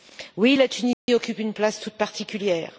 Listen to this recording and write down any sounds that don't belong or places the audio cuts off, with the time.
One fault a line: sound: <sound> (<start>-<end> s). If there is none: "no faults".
sound: dropout (0.9-1.1 s)